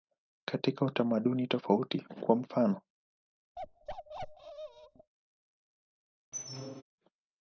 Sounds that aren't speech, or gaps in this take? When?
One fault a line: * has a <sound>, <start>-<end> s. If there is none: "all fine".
* has a bark, 3.6-5.1 s
* has a squeak, 6.3-6.8 s